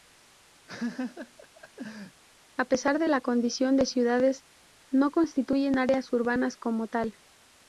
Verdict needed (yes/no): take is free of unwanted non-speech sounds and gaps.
no